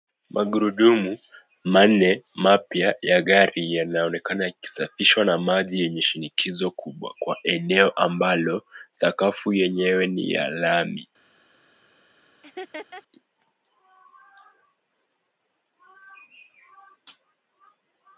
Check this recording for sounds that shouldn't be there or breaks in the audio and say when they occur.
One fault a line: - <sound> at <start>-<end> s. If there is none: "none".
- laugh at 12.4-13.0 s